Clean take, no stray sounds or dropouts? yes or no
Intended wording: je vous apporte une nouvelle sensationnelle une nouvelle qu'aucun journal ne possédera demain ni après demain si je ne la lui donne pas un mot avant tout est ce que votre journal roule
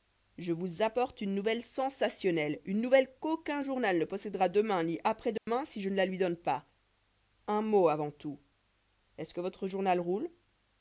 no